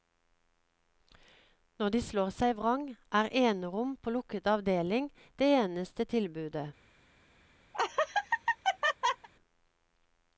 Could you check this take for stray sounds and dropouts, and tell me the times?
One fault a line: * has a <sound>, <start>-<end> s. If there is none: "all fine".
* has a laugh, 7.7-9.3 s